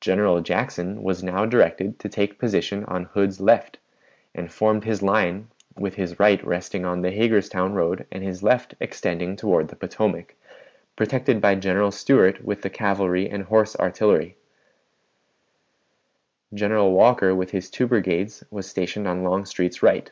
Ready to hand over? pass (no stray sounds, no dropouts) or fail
pass